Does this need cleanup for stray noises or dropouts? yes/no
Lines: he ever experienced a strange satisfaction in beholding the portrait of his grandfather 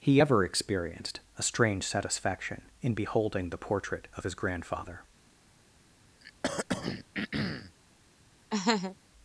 yes